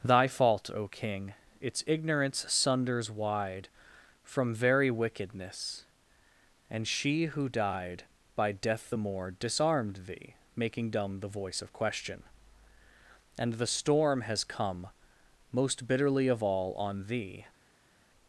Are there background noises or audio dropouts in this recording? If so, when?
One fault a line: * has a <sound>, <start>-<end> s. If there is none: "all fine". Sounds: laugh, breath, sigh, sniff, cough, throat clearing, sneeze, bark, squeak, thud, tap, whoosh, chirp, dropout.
all fine